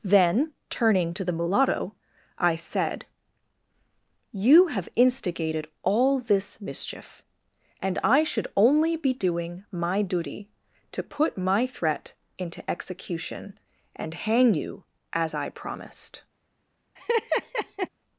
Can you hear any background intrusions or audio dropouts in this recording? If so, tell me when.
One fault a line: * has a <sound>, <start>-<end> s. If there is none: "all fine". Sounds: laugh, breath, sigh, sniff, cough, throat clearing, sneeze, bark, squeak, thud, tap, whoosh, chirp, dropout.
* has a laugh, 17.0-17.9 s